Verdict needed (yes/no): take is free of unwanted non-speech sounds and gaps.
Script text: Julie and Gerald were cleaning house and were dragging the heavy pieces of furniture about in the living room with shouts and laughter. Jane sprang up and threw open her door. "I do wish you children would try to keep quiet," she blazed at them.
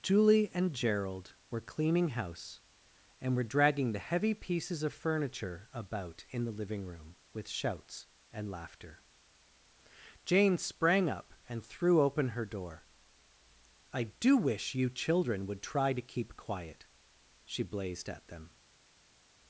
yes